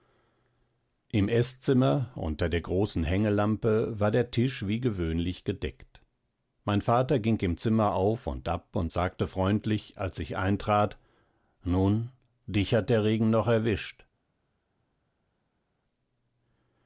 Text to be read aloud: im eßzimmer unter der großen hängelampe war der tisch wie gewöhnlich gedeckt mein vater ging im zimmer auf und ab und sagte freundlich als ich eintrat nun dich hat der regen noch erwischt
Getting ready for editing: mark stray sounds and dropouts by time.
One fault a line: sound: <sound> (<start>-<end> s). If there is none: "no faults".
no faults